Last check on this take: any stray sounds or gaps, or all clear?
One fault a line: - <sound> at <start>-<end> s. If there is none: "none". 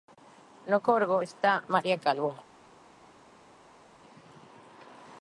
none